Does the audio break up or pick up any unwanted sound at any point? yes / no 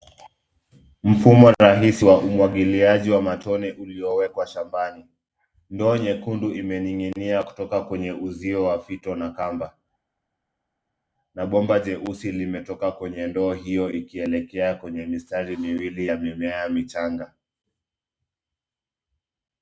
no